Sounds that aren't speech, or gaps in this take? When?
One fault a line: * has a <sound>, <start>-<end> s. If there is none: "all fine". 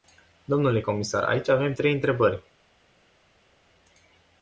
all fine